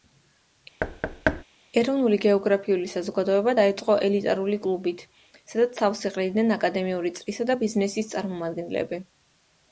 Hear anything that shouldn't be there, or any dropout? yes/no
yes